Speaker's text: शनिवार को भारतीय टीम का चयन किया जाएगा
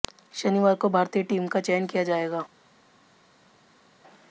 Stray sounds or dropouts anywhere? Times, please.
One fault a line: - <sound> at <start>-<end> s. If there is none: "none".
none